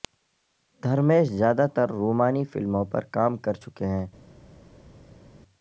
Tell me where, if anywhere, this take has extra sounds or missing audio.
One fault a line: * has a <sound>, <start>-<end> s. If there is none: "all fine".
all fine